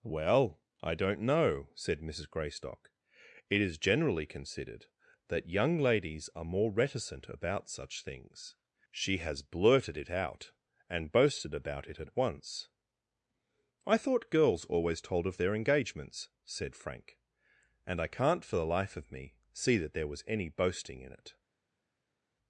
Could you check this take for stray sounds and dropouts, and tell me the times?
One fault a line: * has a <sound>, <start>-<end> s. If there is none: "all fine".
all fine